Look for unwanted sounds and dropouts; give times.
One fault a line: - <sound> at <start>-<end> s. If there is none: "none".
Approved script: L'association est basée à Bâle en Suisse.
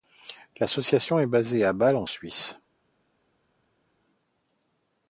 none